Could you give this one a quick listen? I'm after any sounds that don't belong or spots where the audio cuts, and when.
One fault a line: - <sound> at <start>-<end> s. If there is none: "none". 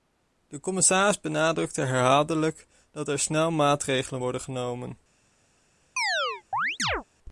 - chirp at 6.0-7.0 s